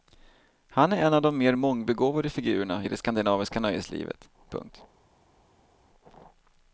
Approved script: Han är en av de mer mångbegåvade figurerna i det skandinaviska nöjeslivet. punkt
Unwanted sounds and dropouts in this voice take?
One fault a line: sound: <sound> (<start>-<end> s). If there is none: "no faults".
no faults